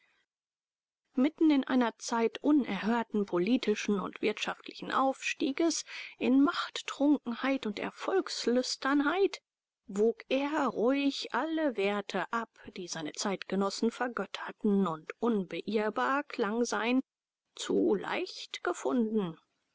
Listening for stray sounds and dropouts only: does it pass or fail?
pass